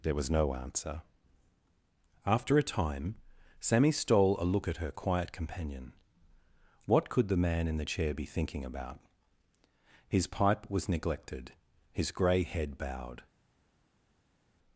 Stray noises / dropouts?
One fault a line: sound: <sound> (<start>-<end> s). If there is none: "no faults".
no faults